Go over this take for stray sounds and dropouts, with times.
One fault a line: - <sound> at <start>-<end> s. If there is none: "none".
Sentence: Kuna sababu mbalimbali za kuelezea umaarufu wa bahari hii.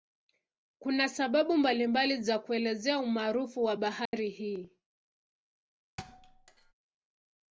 - dropout at 4.1-4.1 s
- thud at 6.0-6.7 s